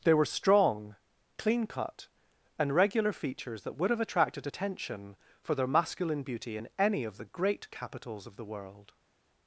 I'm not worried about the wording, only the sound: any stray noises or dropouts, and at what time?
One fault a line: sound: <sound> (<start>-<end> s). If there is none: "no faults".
no faults